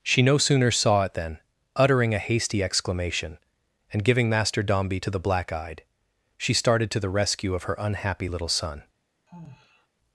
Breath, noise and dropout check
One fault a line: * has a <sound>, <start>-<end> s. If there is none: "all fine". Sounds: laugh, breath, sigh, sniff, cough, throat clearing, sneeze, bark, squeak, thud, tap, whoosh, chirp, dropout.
* has a sigh, 9.3-9.9 s